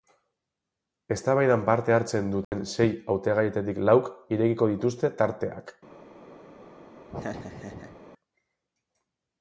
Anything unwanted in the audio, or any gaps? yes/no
yes